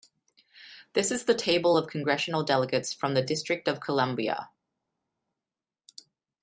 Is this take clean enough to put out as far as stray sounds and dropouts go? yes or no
yes